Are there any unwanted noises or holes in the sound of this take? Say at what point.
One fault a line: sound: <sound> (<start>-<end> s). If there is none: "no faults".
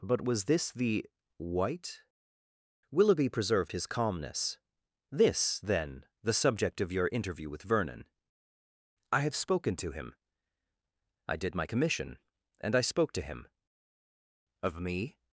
no faults